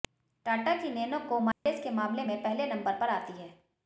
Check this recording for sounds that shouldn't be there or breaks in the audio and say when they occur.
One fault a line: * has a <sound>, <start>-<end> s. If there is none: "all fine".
* has a dropout, 1.5-1.7 s